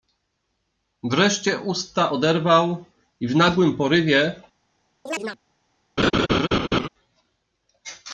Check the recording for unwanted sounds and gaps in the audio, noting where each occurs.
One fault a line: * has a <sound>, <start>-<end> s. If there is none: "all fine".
* has a chirp, 5.1-5.4 s
* has a laugh, 6.0-6.9 s